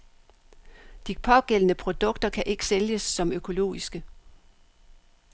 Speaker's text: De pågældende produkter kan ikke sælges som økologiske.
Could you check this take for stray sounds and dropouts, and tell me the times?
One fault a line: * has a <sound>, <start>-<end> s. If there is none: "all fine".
all fine